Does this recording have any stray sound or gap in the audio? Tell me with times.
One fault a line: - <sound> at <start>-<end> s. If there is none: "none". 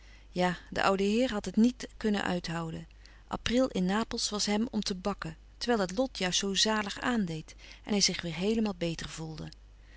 none